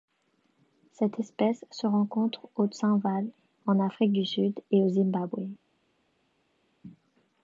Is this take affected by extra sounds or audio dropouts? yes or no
no